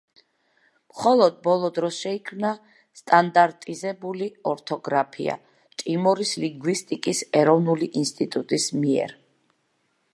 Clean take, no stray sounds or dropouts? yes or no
yes